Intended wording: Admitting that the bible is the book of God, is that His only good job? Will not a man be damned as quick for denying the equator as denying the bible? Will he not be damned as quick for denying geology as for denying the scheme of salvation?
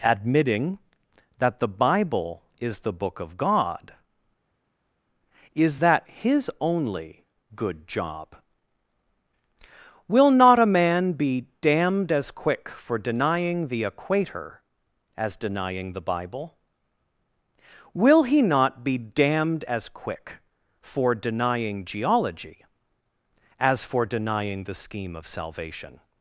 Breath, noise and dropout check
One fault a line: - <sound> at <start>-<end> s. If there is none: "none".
none